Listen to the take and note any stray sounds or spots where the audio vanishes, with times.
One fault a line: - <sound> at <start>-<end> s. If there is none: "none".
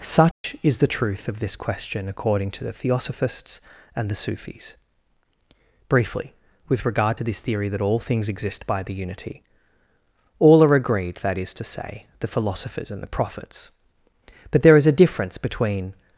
- dropout at 0.3-0.4 s